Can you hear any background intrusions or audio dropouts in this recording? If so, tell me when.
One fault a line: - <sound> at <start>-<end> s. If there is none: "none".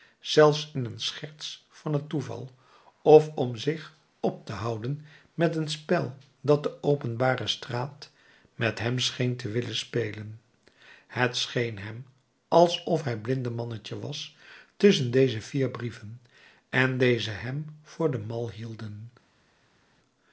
none